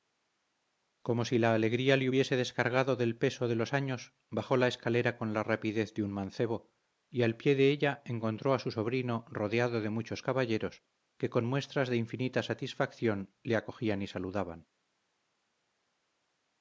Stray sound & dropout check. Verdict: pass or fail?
pass